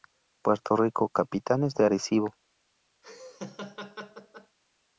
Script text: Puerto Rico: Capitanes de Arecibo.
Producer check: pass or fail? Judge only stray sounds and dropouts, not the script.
fail